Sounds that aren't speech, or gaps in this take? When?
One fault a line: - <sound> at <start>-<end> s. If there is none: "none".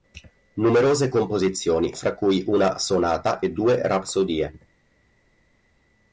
none